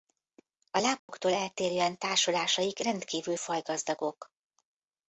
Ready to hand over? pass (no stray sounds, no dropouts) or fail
fail